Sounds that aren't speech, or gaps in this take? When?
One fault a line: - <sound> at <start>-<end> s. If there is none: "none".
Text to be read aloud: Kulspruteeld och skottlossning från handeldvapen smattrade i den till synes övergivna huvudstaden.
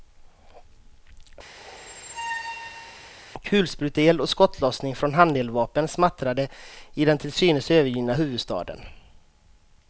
- squeak at 1.6-3.1 s